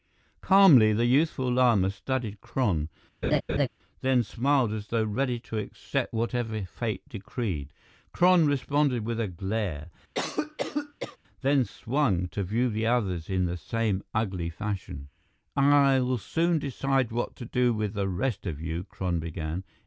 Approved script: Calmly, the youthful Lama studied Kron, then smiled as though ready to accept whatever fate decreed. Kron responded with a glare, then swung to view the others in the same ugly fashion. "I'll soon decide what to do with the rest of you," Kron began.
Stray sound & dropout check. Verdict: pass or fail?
fail